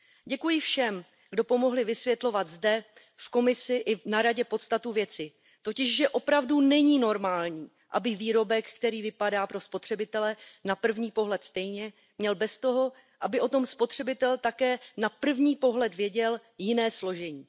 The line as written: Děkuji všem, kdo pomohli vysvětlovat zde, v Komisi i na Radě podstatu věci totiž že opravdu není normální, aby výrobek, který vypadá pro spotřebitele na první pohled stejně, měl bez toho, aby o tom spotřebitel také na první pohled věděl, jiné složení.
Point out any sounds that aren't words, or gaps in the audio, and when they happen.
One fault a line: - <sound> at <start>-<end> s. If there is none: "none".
none